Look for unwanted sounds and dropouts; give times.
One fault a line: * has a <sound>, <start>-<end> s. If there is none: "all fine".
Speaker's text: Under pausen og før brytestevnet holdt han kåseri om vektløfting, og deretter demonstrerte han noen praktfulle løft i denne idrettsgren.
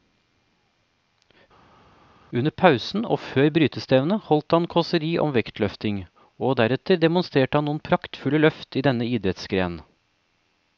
all fine